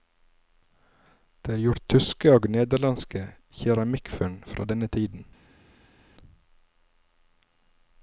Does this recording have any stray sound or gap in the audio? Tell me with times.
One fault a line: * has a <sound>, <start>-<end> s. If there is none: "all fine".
all fine